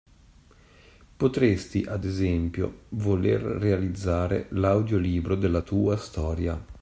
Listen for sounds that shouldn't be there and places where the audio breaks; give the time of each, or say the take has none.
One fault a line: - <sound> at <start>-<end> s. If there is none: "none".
none